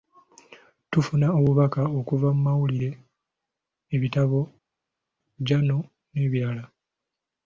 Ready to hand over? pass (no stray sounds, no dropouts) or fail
pass